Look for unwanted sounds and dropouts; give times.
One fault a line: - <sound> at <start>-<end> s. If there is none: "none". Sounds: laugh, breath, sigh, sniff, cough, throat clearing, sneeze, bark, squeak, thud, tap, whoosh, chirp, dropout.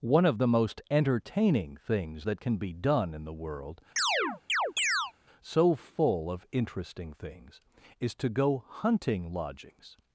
- chirp at 4.0-5.1 s